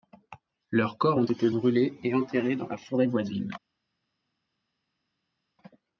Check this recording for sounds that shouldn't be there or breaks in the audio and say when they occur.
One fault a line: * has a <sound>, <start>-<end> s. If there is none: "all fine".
all fine